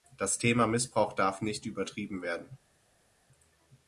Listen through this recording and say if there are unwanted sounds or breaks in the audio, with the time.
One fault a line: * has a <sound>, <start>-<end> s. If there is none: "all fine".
all fine